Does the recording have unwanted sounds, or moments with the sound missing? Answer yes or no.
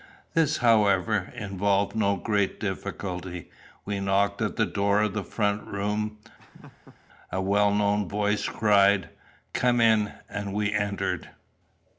yes